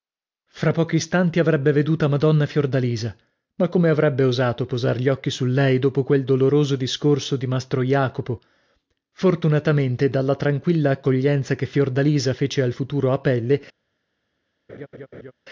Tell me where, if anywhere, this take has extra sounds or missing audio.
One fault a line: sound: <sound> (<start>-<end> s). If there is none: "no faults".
sound: laugh (14.7-15.3 s)